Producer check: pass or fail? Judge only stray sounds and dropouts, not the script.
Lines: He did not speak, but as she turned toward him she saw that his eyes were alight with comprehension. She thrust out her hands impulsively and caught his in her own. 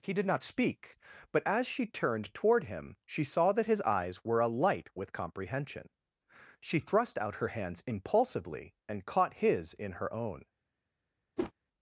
fail